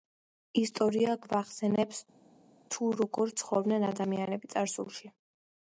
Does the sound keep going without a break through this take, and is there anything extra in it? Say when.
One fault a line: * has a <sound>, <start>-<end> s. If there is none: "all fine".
all fine